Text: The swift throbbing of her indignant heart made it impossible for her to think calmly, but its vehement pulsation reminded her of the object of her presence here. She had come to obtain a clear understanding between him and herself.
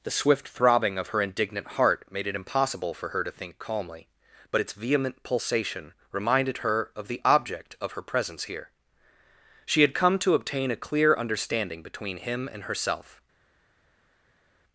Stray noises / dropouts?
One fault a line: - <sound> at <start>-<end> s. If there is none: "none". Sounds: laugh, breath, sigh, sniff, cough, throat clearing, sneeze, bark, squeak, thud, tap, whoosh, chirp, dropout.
none